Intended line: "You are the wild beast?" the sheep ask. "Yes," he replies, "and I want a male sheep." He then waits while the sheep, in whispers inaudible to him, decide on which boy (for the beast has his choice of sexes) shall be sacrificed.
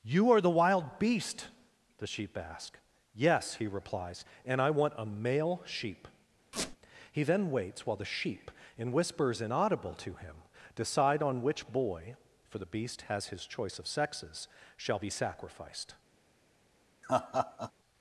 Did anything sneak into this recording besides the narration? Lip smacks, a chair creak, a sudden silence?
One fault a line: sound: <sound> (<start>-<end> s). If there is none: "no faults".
sound: squeak (6.5-6.8 s)
sound: laugh (17.0-17.7 s)